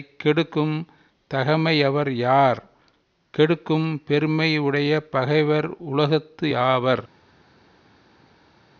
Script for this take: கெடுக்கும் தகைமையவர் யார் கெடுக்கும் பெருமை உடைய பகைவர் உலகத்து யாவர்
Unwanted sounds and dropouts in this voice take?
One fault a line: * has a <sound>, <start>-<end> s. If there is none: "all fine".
all fine